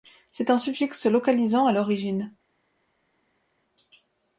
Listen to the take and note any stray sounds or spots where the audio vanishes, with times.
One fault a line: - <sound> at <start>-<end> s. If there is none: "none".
none